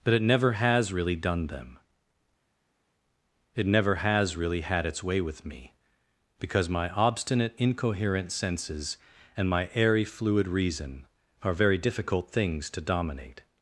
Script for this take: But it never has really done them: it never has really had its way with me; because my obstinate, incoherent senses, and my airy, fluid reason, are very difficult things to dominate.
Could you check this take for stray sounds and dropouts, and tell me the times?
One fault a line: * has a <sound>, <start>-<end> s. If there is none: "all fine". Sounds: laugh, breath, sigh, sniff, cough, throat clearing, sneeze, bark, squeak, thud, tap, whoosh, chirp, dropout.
all fine